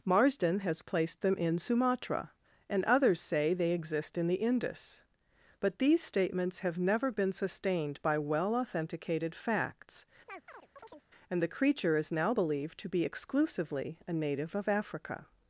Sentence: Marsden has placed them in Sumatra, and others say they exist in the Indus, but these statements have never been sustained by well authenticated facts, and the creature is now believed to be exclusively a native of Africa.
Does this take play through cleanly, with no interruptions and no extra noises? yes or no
no